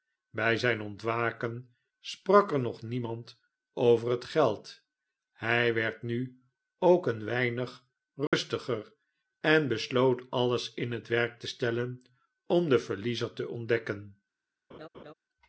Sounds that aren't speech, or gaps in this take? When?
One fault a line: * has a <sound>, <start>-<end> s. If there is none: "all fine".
* has a dropout, 8.3-8.3 s
* has a laugh, 14.7-15.1 s